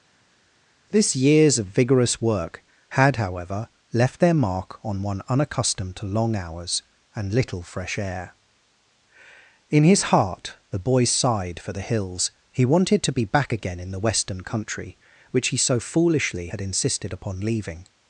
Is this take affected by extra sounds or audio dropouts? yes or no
no